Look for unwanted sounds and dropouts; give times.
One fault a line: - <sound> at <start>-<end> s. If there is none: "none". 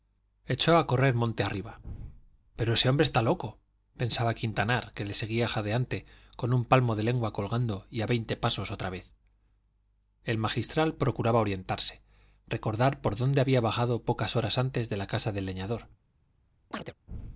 - chirp at 16.7-16.9 s